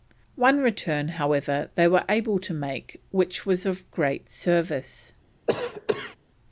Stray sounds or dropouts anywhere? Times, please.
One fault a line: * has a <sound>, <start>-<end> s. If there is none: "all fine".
* has a cough, 5.5-6.2 s